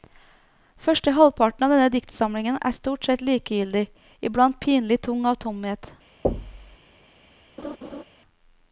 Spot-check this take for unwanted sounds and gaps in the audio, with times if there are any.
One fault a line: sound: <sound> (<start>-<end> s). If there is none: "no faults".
sound: thud (6.2-6.8 s)
sound: laugh (7.6-8.0 s)